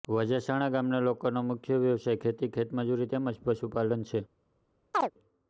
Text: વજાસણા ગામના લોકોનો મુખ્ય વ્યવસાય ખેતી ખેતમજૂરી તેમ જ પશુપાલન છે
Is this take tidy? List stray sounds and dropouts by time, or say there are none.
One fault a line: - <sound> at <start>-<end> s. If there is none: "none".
- chirp at 4.9-5.1 s